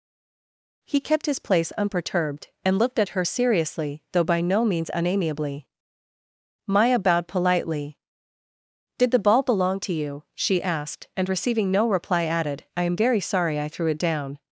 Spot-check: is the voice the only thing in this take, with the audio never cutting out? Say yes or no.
yes